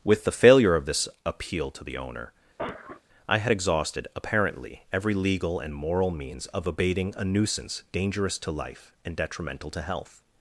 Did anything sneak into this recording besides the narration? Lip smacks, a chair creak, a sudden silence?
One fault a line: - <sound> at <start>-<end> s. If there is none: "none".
- cough at 2.6-3.0 s